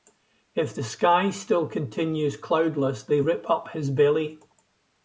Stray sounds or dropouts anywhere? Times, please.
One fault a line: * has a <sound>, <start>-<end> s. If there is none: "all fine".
all fine